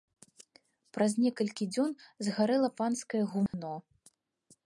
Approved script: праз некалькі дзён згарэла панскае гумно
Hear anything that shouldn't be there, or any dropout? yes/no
yes